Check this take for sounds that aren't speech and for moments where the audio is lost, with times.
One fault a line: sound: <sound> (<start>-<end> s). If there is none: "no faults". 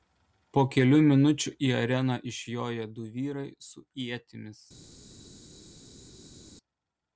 no faults